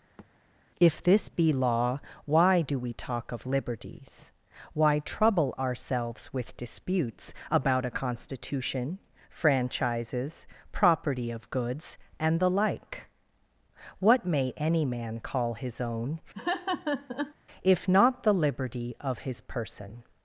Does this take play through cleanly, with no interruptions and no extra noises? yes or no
no